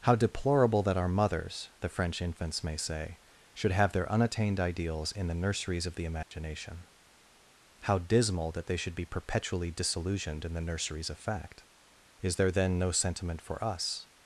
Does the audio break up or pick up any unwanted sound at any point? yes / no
yes